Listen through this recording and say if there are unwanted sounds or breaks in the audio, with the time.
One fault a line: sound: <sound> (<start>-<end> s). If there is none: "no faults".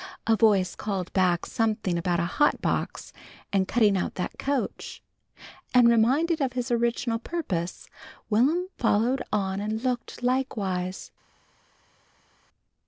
no faults